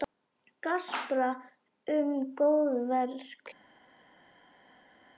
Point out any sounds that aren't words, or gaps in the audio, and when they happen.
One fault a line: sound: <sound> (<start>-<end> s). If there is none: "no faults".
no faults